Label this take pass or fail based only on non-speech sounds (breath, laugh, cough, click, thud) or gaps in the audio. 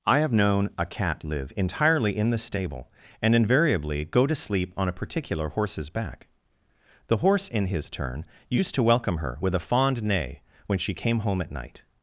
pass